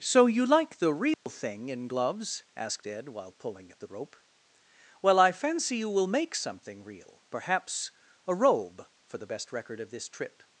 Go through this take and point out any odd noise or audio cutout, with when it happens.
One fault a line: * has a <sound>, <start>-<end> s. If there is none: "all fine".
* has a dropout, 1.1-1.3 s